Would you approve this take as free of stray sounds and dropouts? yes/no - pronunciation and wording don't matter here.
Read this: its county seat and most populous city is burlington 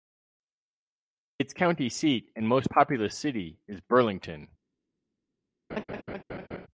no